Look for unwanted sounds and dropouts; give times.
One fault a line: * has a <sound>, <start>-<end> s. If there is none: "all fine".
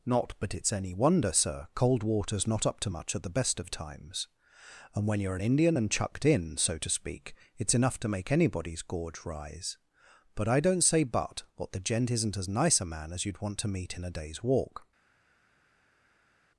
all fine